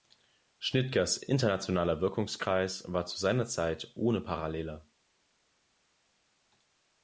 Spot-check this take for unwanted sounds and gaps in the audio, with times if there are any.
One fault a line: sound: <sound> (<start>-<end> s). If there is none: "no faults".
no faults